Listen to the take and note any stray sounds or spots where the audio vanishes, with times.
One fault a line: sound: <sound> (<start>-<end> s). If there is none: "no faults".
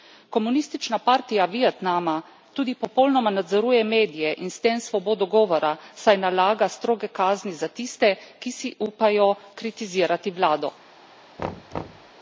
sound: thud (11.4-12.1 s)